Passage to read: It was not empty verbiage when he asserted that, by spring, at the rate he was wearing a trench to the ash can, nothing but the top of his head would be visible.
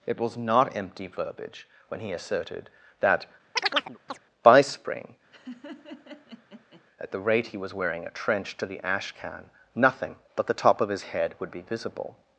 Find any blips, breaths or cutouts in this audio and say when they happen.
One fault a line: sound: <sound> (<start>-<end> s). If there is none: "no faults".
sound: chirp (3.6-4.2 s)
sound: laugh (5.3-6.8 s)